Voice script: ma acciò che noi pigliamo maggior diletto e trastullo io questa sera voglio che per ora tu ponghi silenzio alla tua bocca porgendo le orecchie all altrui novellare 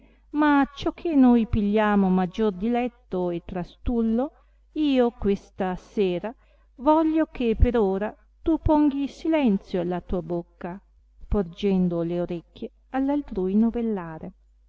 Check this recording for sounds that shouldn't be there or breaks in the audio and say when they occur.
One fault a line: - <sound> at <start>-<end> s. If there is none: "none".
none